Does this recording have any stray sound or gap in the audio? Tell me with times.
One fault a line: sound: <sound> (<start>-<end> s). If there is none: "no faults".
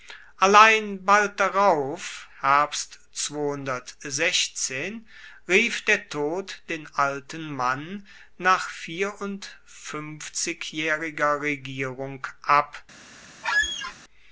sound: squeak (13.4-14.0 s)